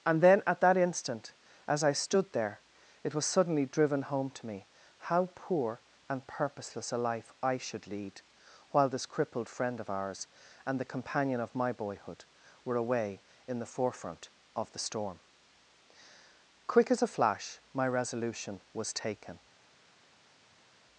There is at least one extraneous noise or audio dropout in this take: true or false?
false